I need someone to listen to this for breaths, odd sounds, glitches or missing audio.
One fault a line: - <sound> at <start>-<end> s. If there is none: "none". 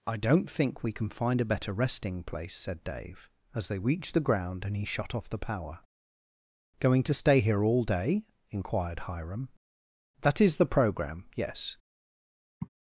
- sigh at 12.6-12.7 s